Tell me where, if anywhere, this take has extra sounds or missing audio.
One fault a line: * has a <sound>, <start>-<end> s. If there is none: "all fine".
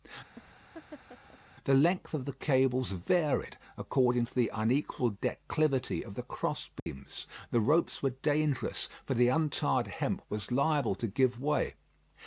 * has a laugh, 0.3-1.4 s
* has a dropout, 6.8-6.9 s